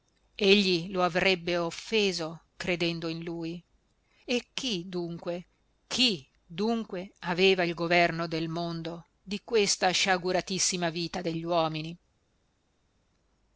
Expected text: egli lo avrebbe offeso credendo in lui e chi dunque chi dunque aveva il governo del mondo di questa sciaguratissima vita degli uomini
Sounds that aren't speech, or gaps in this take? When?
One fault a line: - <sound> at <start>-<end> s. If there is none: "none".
none